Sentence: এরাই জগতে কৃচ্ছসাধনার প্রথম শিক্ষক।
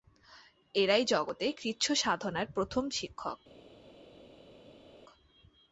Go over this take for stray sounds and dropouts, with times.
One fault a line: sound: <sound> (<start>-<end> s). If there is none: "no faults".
no faults